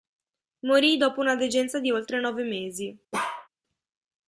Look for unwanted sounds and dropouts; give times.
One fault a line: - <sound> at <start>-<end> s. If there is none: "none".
- bark at 3.1-3.5 s